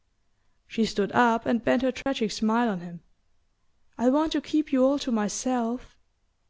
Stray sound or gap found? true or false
true